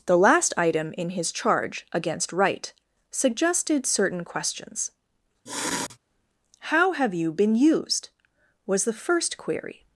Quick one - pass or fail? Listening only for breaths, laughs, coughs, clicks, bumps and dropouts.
fail